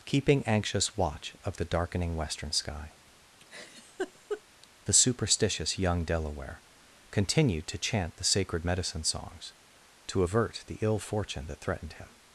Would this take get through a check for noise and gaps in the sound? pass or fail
fail